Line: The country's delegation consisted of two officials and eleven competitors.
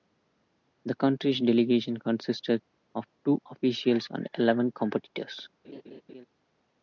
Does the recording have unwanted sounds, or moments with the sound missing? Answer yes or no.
yes